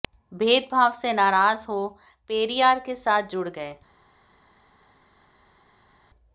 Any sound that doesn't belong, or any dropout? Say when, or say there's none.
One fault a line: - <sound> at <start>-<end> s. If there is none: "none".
none